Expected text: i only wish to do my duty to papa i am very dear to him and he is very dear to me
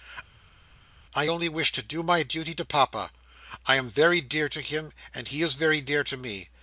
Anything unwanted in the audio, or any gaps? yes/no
no